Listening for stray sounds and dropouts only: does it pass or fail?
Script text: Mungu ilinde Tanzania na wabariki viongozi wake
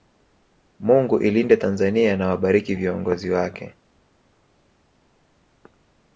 pass